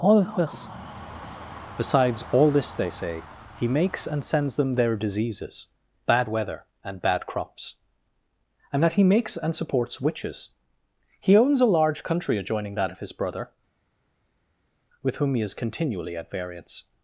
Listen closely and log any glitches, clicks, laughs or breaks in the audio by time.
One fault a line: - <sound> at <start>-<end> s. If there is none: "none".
none